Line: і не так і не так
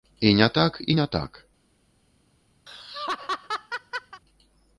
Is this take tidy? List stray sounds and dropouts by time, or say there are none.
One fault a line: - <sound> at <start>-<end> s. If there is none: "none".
- laugh at 2.7-4.2 s